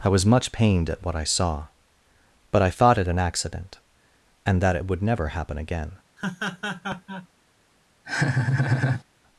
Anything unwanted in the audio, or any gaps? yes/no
yes